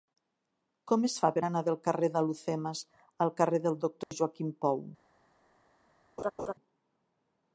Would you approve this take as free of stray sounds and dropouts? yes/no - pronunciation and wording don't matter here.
no